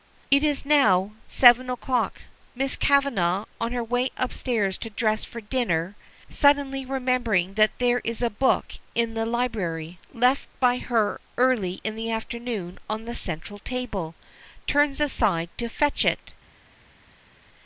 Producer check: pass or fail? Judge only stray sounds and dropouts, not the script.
pass